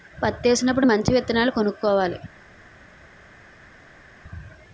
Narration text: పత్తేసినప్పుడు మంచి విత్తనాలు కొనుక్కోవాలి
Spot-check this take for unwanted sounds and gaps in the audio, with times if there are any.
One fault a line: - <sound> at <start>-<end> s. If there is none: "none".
none